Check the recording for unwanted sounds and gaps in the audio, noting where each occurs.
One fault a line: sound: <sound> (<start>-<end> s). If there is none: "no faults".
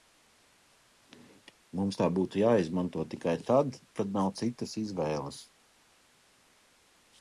no faults